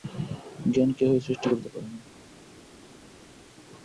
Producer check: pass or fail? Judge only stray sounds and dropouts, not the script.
pass